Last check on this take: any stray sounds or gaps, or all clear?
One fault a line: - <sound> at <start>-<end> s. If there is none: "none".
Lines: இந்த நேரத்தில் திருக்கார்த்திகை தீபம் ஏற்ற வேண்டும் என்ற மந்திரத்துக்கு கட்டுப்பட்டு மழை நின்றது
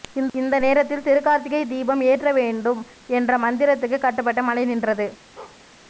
- bark at 5.4-5.6 s